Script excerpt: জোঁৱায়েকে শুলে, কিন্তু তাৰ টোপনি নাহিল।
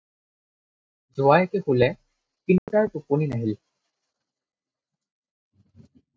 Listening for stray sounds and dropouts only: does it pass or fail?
fail